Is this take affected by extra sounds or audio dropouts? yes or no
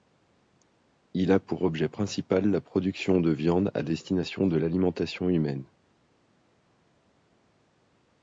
no